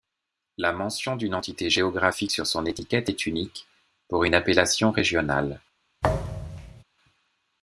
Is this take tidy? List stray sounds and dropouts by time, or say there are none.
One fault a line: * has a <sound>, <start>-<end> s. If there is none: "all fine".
* has a thud, 6.0-6.8 s